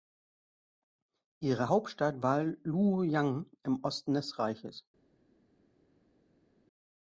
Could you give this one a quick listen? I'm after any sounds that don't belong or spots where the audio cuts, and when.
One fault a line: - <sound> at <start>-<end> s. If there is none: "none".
none